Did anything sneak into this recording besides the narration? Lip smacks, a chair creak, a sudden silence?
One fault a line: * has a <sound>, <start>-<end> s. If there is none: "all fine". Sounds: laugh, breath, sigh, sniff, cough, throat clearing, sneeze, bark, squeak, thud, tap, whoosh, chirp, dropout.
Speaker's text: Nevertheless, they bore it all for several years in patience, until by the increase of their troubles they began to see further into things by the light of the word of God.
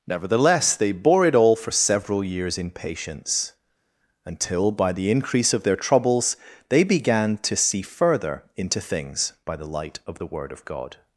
all fine